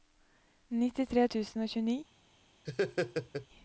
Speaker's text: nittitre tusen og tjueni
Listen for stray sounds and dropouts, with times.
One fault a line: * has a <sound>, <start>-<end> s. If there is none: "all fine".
* has a laugh, 2.7-3.5 s